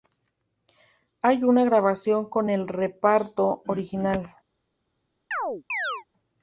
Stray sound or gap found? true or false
true